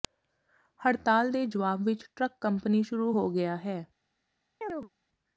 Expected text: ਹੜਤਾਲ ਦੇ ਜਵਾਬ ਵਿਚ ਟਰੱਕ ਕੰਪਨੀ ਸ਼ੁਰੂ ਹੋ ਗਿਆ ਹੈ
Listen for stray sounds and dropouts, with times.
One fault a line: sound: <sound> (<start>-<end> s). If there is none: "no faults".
sound: chirp (4.6-4.9 s)